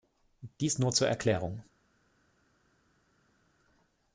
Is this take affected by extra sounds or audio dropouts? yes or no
no